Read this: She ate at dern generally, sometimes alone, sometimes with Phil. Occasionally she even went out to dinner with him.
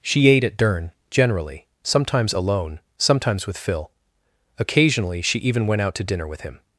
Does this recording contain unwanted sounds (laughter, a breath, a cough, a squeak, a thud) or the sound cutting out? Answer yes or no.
no